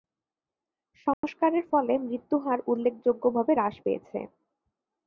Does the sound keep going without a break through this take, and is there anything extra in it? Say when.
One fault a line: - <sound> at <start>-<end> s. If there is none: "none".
- dropout at 1.1-1.2 s